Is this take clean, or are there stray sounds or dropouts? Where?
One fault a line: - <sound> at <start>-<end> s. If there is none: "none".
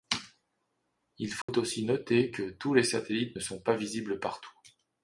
- dropout at 1.4-1.5 s